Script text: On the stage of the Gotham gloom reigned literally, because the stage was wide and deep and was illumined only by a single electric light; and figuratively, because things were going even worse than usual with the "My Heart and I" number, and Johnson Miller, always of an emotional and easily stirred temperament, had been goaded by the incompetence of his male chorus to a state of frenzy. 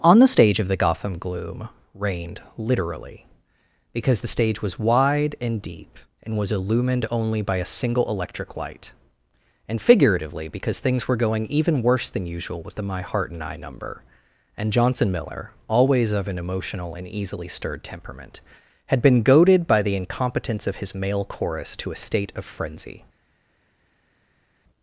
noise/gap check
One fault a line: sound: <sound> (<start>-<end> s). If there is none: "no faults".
no faults